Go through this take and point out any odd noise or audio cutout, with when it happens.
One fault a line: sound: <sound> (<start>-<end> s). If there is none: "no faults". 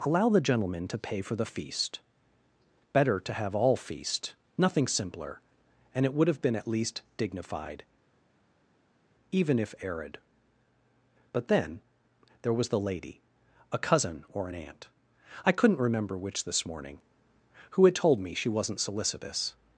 no faults